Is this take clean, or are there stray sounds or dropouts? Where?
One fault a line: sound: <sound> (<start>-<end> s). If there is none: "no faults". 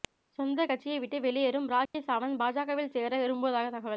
sound: dropout (1.9-1.9 s)